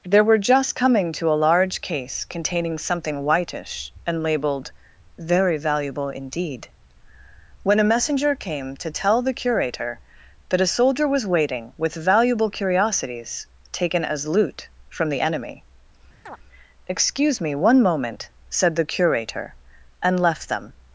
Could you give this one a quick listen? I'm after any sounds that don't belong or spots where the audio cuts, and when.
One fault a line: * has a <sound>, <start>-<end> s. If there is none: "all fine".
* has a chirp, 16.3-16.4 s